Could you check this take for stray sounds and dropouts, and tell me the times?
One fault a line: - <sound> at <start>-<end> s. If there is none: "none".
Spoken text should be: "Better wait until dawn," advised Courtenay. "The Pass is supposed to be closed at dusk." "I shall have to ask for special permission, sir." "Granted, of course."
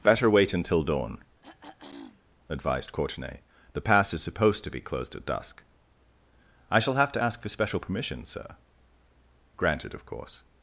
- throat clearing at 1.4-2.2 s